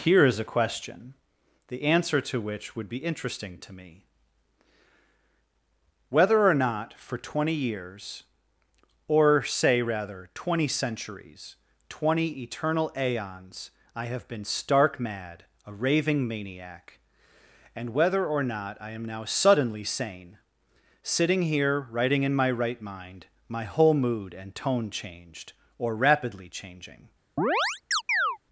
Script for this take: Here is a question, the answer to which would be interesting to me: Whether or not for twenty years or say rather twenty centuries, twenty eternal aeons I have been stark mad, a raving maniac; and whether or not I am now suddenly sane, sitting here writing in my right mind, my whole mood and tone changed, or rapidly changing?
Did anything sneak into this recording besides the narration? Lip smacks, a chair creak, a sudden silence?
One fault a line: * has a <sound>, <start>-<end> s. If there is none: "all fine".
* has a chirp, 27.4-28.4 s